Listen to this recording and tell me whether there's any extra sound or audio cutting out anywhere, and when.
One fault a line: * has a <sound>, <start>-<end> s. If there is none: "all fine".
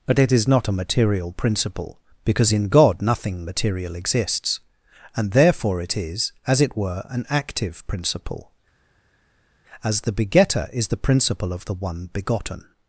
all fine